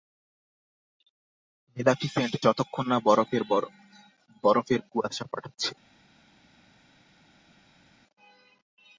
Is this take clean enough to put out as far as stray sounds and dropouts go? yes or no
yes